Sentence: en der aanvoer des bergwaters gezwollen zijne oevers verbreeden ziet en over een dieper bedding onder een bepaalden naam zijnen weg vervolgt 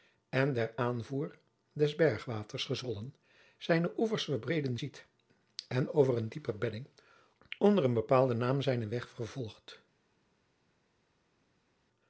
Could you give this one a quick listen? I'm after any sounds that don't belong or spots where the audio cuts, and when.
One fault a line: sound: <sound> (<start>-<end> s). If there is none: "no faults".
no faults